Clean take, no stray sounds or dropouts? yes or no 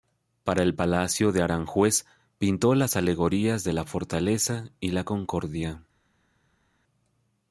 yes